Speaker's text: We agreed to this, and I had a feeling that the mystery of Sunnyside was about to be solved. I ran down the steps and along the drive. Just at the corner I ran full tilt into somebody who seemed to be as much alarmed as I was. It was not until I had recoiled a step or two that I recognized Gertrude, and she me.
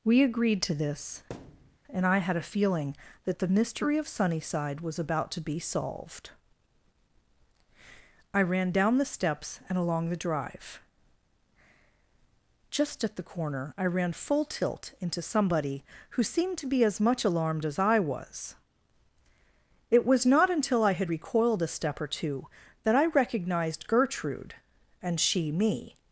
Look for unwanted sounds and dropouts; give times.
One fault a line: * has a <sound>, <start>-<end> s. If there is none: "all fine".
* has a thud, 1.3-1.8 s